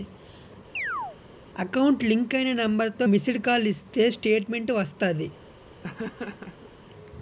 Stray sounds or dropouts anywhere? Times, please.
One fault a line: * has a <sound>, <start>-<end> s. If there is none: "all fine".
* has a chirp, 0.7-1.2 s
* has a laugh, 5.8-6.7 s